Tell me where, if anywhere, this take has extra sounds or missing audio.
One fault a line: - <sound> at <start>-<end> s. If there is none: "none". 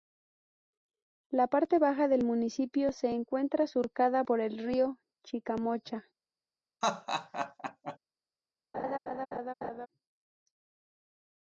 - laugh at 6.8-8.0 s
- laugh at 8.7-9.9 s